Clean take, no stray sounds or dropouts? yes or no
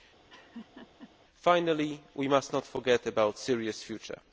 no